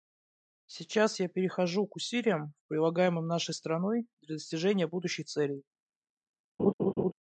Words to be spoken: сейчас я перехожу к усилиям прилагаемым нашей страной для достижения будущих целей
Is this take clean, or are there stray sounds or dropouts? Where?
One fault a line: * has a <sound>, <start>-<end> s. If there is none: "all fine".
* has a laugh, 6.6-7.1 s